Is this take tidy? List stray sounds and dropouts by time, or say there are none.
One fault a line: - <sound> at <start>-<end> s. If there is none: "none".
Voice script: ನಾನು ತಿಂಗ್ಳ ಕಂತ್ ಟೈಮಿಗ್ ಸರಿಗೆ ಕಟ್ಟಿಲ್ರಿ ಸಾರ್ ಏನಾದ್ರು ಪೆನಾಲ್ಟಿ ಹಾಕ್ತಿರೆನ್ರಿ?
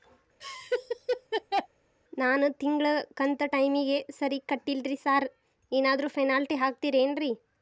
- laugh at 0.4-1.7 s